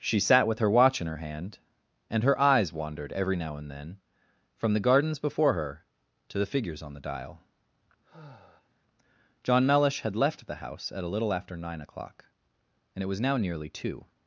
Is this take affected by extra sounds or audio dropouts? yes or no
yes